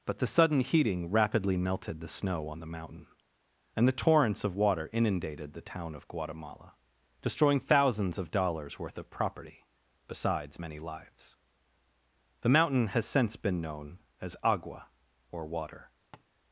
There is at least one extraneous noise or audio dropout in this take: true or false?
true